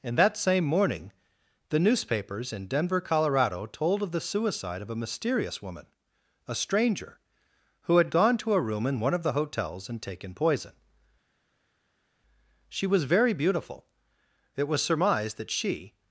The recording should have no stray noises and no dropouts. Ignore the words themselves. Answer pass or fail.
pass